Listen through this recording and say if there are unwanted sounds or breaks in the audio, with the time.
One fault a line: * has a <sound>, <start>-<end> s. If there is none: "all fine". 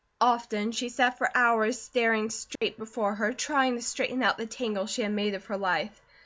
* has a dropout, 2.6-2.6 s